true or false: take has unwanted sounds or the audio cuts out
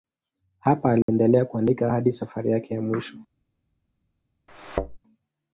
true